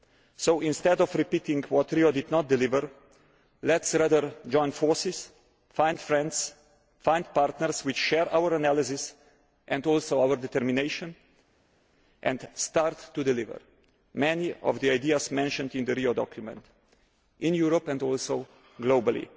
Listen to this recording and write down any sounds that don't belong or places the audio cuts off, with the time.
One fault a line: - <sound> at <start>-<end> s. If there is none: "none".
none